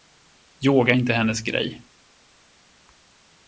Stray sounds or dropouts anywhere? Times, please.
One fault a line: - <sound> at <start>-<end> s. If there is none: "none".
none